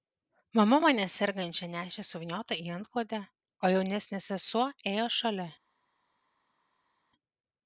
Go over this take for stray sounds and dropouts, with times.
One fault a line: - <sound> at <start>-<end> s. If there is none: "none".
none